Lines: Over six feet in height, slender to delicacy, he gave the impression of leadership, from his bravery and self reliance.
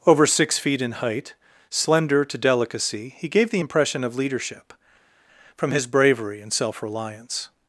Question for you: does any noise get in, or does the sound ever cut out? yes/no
no